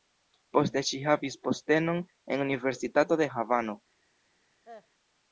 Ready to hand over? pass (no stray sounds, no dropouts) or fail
fail